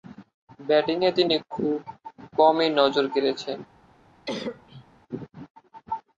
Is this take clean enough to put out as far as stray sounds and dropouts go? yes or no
no